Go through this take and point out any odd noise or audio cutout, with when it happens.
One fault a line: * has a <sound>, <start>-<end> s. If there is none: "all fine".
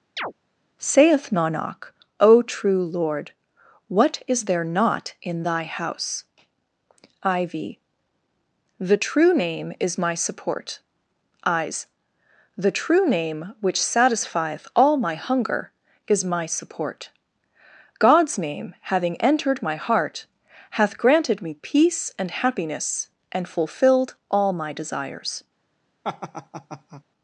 * has a chirp, 0.2-0.3 s
* has a laugh, 26.0-27.0 s